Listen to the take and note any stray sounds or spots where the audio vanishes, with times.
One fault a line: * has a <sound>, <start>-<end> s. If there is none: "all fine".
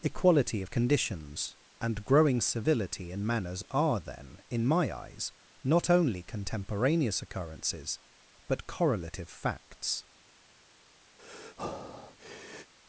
* has a breath, 11.2-12.7 s